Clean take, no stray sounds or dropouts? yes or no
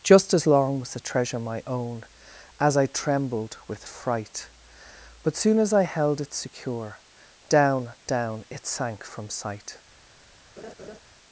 no